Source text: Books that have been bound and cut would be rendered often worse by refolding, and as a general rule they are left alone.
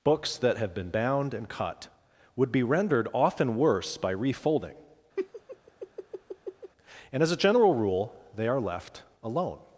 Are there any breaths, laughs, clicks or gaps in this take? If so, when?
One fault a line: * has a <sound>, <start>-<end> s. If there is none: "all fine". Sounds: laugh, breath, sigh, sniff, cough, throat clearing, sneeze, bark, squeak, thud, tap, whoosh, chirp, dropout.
* has a laugh, 5.2-6.7 s